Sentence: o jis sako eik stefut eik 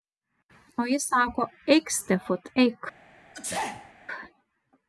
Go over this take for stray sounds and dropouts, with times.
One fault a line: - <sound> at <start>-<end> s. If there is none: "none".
- sneeze at 3.3-3.9 s